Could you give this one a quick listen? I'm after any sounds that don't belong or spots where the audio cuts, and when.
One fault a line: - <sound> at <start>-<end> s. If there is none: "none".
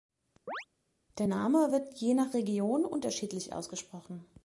- chirp at 0.5-0.7 s